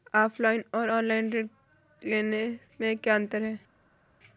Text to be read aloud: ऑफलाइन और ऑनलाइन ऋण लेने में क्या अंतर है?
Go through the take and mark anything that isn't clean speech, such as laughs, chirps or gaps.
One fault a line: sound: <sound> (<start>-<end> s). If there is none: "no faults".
no faults